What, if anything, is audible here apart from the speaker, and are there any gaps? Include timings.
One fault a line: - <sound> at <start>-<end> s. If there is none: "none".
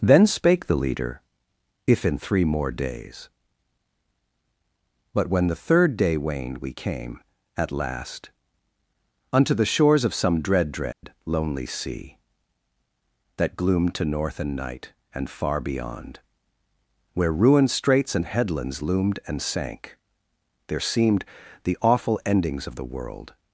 - dropout at 10.9-11.0 s